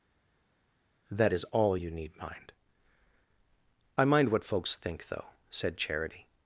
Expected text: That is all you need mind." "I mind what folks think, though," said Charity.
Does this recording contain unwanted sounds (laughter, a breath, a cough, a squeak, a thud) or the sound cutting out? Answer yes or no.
no